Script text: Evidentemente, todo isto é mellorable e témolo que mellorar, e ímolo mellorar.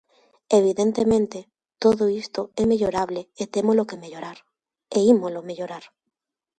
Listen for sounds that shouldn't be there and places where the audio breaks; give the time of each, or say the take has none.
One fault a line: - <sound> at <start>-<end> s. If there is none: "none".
none